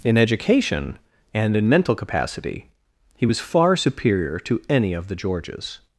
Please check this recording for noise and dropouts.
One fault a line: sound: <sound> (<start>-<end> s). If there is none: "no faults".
no faults